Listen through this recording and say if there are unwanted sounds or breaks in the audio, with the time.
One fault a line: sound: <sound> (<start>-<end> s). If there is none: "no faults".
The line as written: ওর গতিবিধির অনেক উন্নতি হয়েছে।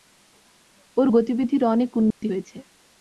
sound: dropout (2.1-2.2 s)